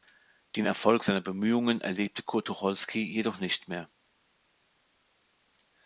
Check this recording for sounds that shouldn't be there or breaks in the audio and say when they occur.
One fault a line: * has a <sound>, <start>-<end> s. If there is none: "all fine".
all fine